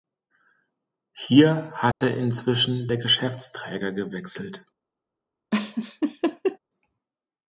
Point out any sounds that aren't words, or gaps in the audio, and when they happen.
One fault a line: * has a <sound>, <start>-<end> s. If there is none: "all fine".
* has a dropout, 1.9-2.0 s
* has a laugh, 5.5-6.6 s